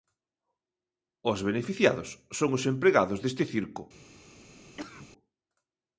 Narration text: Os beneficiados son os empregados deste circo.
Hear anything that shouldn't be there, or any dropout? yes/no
yes